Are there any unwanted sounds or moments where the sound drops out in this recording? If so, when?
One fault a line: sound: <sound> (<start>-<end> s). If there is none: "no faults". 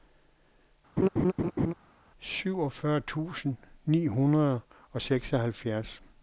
sound: laugh (1.0-1.7 s)